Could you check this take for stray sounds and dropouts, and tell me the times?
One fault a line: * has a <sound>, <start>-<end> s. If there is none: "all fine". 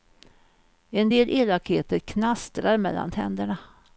all fine